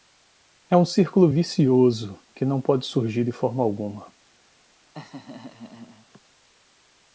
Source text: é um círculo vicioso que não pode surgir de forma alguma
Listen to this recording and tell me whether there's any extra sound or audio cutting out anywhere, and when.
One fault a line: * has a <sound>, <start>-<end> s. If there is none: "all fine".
* has a laugh, 4.9-6.2 s